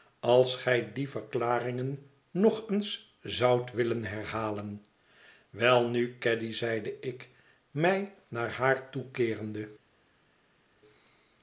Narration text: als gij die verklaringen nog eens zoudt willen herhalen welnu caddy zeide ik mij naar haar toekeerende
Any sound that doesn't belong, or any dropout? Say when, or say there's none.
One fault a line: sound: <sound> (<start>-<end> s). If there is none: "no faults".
no faults